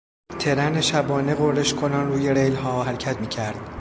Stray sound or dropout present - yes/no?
no